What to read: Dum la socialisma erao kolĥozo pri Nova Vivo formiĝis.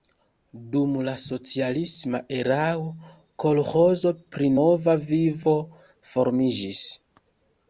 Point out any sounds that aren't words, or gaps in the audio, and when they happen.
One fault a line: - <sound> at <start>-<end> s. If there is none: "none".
none